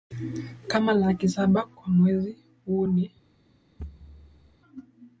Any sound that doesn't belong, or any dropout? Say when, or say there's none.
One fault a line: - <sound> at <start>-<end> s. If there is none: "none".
- thud at 3.8-4.6 s